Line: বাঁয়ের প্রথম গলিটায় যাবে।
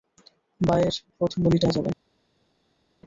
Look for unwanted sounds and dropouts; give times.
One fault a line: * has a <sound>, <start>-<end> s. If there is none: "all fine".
all fine